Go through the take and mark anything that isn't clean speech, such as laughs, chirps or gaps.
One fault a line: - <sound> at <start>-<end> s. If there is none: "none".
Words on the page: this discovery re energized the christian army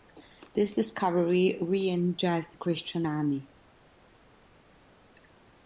none